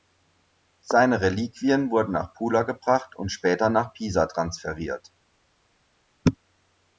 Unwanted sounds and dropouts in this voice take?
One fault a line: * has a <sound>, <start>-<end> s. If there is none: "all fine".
all fine